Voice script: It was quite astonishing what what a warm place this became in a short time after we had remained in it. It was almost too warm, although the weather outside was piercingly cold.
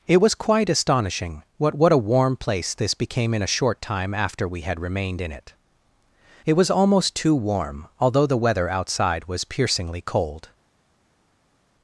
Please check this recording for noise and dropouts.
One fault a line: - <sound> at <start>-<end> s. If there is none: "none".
none